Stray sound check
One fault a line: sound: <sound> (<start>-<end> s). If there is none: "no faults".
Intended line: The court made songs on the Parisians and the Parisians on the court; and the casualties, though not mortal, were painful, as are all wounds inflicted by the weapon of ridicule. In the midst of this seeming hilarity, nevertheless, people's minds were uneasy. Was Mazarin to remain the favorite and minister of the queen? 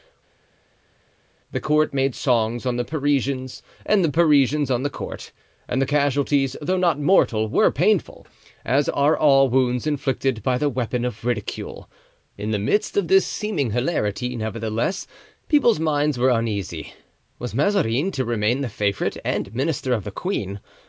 no faults